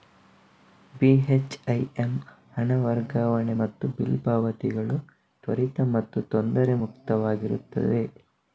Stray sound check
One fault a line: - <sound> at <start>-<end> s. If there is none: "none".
none